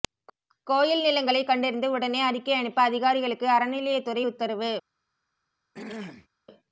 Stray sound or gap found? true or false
true